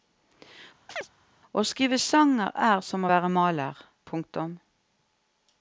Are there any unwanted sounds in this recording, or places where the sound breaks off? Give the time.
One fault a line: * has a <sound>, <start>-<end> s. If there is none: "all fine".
* has a chirp, 0.9-1.1 s